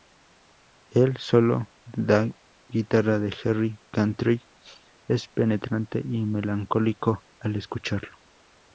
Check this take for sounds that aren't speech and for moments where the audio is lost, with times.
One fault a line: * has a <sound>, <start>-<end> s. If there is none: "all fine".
all fine